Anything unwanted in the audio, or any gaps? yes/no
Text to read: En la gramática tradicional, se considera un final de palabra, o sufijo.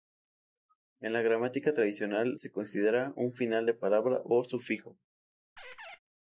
yes